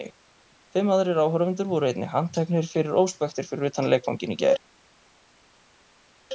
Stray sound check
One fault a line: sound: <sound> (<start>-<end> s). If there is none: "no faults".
no faults